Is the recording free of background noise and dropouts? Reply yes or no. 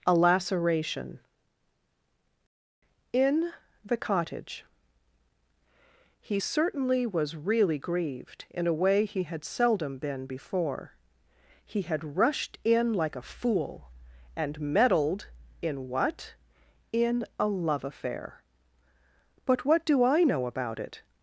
yes